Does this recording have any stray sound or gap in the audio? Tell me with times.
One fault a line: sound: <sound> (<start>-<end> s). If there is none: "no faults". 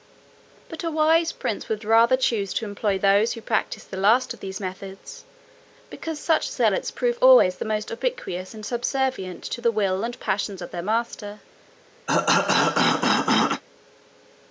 sound: cough (12.1-13.6 s)